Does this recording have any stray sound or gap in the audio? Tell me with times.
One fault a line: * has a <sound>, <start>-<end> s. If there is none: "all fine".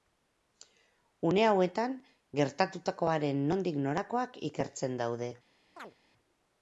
* has a chirp, 5.8-5.9 s